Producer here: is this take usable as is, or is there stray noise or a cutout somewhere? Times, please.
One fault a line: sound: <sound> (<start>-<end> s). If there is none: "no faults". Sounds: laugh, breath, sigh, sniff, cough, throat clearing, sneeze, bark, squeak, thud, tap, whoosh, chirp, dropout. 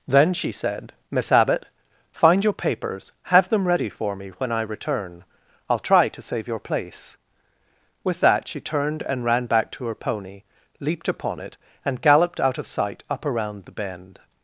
no faults